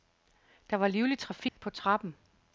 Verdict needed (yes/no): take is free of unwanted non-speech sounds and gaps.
no